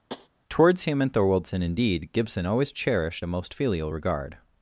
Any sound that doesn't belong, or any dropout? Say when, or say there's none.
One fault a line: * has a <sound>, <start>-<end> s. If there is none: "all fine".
* has a tap, 0.1-0.3 s